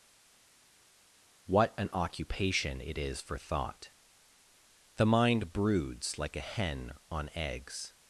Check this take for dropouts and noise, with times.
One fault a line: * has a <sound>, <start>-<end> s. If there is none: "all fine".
all fine